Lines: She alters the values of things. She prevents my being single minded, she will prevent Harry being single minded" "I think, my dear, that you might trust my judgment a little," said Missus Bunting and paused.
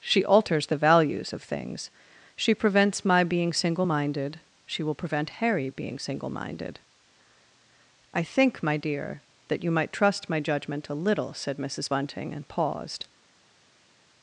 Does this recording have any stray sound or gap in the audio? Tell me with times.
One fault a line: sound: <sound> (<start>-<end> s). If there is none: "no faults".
no faults